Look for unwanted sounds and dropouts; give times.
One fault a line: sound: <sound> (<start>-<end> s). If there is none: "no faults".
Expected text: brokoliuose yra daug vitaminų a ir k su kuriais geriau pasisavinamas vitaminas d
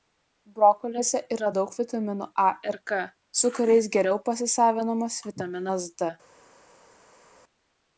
no faults